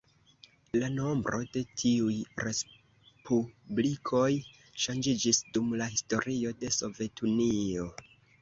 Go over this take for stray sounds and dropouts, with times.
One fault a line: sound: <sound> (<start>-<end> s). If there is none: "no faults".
no faults